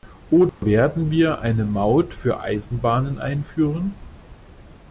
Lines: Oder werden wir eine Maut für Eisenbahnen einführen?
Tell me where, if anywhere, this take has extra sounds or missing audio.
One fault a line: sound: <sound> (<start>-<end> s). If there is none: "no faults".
sound: dropout (0.5-0.6 s)